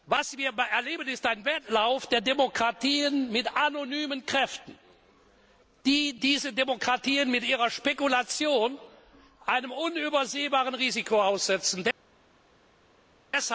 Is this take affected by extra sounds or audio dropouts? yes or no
no